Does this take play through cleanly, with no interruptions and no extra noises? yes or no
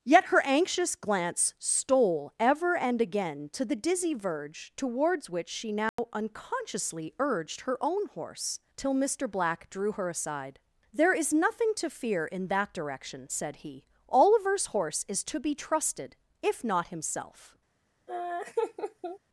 no